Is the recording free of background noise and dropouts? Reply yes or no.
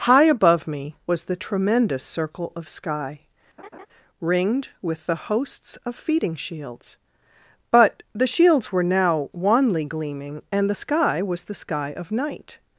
no